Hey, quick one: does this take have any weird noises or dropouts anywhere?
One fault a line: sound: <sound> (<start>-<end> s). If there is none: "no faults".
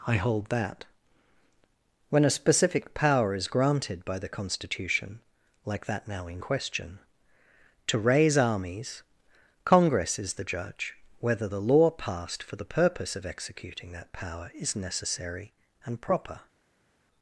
no faults